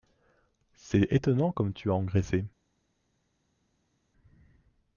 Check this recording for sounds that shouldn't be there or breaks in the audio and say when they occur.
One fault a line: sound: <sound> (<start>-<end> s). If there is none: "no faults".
no faults